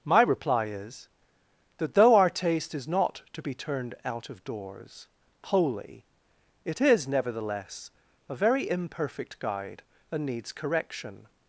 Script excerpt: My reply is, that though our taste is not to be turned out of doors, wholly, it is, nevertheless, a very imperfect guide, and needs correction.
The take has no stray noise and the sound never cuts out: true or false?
true